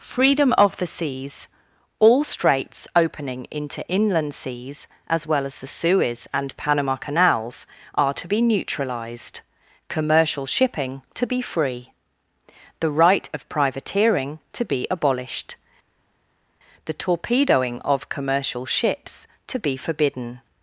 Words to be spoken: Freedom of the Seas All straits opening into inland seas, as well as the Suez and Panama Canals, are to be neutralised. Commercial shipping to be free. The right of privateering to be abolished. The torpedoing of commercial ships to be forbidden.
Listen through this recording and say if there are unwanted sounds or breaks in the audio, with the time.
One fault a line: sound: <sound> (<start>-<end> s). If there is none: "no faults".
no faults